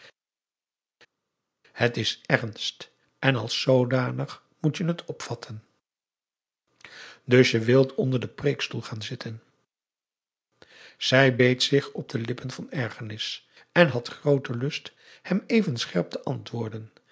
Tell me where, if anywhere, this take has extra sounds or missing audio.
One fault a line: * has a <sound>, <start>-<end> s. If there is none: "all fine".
all fine